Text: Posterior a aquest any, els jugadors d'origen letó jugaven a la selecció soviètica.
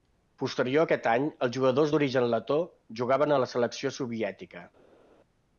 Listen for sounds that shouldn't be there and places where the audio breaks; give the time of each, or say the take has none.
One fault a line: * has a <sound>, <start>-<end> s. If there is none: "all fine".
all fine